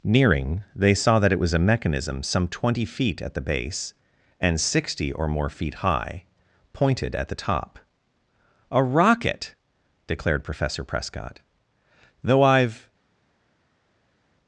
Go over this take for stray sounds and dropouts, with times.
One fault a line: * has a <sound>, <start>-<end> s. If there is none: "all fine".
all fine